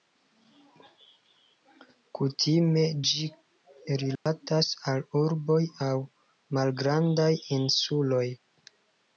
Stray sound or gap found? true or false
true